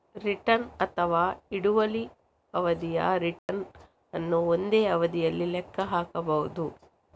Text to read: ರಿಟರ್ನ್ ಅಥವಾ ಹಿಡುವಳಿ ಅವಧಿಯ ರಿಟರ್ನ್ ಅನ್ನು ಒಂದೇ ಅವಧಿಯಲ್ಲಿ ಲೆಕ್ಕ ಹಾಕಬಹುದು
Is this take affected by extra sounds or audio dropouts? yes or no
yes